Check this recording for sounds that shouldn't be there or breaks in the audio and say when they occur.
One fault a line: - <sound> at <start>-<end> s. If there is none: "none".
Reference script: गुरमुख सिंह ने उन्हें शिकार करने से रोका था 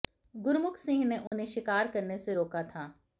- dropout at 1.3-1.3 s